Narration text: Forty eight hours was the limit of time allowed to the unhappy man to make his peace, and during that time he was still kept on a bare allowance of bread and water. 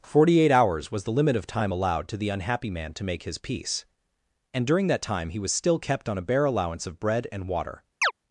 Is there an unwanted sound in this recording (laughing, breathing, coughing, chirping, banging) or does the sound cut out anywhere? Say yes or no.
yes